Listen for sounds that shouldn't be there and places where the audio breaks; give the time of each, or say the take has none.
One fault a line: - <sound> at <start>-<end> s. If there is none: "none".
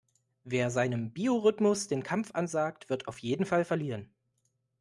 none